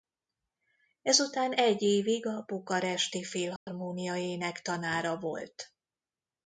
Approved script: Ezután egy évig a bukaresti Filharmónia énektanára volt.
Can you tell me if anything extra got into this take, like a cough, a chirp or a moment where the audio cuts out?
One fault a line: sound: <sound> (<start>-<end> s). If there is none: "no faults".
sound: dropout (3.6-3.7 s)